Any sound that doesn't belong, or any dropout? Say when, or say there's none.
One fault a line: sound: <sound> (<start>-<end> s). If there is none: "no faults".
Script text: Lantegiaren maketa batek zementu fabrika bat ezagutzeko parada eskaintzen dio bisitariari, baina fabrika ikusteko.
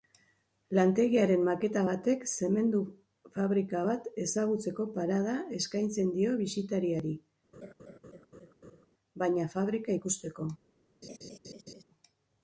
sound: laugh (7.5-8.9 s)
sound: laugh (11.0-11.8 s)